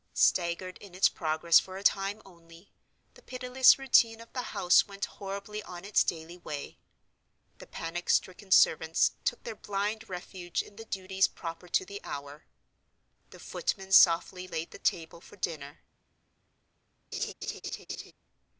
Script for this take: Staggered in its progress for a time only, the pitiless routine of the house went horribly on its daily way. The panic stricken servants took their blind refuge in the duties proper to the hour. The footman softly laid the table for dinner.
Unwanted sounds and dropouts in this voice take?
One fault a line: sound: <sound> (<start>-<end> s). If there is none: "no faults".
sound: laugh (17.1-18.1 s)